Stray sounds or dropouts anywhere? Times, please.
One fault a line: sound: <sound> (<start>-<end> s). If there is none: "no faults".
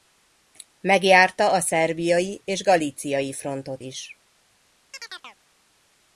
sound: chirp (4.9-5.4 s)